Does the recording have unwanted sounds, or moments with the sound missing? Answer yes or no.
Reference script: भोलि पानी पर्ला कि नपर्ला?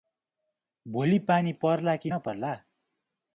no